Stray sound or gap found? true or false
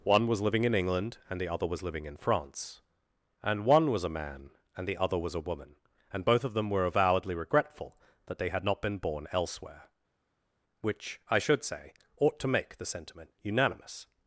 false